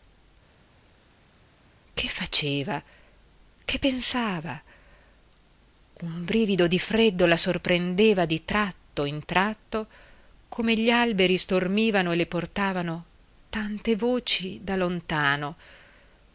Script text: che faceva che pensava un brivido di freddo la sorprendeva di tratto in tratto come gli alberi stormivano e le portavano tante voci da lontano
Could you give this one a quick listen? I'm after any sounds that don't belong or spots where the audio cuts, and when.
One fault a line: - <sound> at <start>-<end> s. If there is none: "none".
none